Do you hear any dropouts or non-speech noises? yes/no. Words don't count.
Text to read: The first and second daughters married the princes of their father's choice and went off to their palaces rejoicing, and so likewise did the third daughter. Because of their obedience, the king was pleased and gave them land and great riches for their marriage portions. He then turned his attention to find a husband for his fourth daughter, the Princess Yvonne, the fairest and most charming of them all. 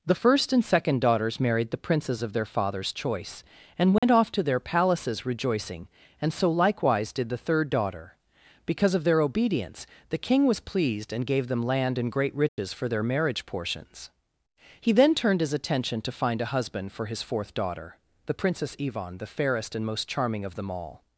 yes